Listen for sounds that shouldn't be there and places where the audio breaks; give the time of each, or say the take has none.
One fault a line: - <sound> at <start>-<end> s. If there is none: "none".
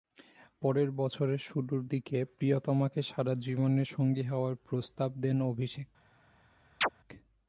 - chirp at 6.8-6.9 s